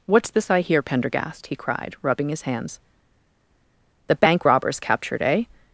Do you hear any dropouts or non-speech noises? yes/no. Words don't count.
no